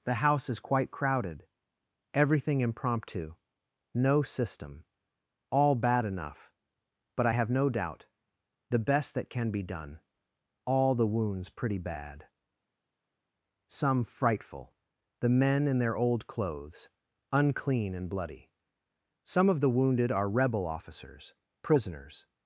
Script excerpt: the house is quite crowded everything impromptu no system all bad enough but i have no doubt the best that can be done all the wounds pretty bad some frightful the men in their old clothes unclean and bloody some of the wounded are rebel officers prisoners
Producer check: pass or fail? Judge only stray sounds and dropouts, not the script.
pass